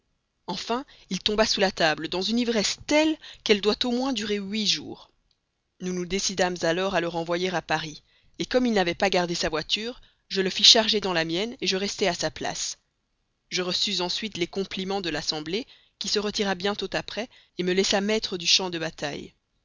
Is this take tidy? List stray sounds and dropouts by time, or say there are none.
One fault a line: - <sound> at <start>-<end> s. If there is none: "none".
none